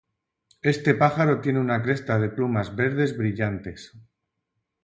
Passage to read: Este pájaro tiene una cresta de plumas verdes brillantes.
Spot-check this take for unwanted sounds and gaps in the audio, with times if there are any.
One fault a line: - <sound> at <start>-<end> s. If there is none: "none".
none